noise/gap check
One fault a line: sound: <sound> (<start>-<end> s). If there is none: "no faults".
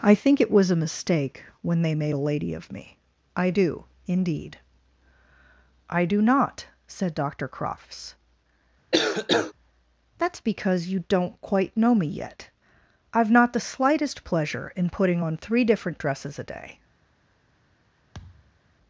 sound: cough (8.9-9.5 s)
sound: thud (18.1-18.6 s)